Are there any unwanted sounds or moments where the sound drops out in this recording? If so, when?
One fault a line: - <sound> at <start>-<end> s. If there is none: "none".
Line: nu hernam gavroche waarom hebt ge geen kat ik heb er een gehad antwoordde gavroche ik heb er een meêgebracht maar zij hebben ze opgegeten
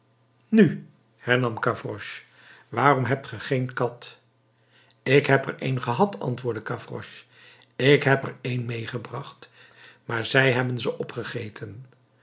none